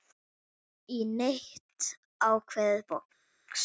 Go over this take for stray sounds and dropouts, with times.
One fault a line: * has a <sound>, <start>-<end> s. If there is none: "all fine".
all fine